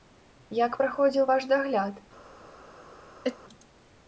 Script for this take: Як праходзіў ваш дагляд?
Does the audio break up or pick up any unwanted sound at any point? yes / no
yes